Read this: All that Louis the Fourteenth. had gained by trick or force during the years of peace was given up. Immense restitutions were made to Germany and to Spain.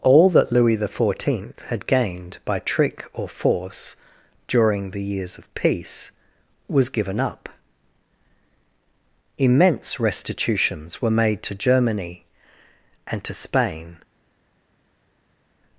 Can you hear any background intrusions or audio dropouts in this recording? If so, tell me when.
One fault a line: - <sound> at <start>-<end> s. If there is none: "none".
none